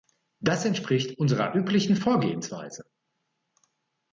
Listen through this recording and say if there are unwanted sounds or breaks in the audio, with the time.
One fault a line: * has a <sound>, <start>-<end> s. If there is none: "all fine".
all fine